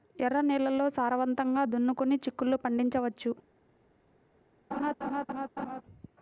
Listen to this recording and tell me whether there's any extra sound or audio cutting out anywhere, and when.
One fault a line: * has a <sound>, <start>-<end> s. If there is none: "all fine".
* has a laugh, 4.7-5.8 s